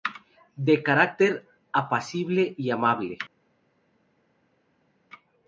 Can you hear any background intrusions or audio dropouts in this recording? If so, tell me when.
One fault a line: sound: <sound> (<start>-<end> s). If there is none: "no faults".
no faults